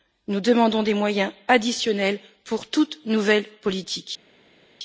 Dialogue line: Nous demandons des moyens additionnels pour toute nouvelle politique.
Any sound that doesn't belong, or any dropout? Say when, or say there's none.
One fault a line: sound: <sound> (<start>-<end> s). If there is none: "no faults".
no faults